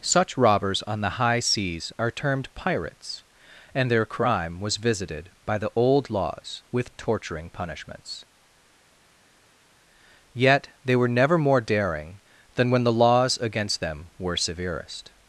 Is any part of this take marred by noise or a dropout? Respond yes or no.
no